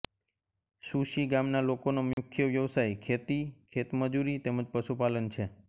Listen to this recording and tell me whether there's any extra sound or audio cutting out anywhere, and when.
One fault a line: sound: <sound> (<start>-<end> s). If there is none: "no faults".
sound: dropout (2.1-2.2 s)